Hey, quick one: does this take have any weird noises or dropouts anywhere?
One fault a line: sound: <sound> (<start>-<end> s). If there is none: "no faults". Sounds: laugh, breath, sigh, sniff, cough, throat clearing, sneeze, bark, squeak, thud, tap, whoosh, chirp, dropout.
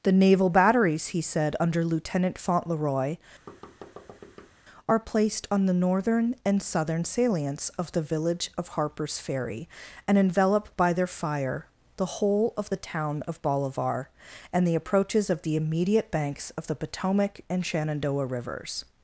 sound: thud (3.5-4.5 s)